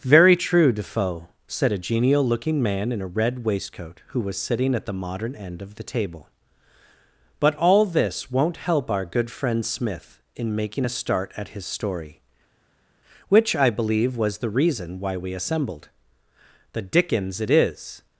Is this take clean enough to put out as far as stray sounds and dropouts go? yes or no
yes